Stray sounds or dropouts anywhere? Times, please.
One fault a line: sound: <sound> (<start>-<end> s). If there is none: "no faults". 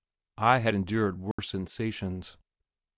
sound: dropout (1.3-1.4 s)